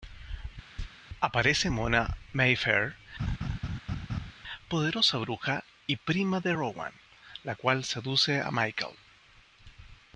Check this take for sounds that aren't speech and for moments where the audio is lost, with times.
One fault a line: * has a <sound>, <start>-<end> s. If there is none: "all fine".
* has a chirp, 0.8-0.9 s
* has a laugh, 3.2-4.3 s